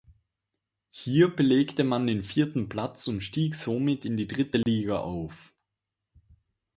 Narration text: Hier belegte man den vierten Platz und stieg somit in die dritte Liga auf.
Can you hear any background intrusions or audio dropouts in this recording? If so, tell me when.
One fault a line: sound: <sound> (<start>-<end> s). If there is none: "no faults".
sound: dropout (4.6-4.7 s)